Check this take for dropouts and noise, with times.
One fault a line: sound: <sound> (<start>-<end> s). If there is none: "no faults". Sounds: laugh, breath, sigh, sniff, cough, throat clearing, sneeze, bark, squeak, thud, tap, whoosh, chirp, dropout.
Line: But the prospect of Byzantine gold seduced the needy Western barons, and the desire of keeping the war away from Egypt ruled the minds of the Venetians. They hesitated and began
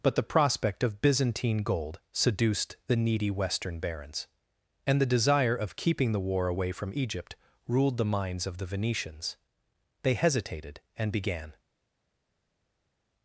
no faults